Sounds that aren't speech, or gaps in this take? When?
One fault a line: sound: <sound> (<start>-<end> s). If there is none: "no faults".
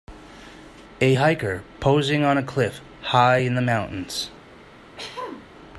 sound: throat clearing (5.0-5.5 s)